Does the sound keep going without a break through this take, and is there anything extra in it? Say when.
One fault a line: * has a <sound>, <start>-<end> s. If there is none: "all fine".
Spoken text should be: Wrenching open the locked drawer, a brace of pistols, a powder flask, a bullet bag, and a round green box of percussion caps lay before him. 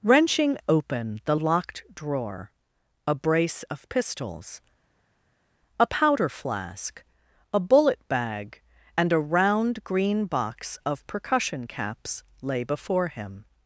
all fine